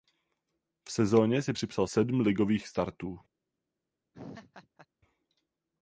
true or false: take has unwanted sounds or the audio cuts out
true